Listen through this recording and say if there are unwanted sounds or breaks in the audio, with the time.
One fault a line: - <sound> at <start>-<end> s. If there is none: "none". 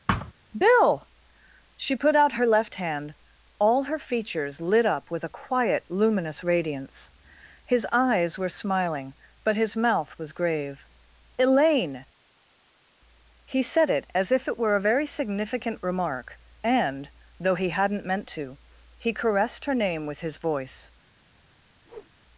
- thud at 0.1-0.3 s
- whoosh at 21.9-22.1 s